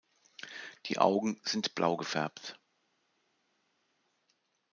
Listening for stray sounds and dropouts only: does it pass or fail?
pass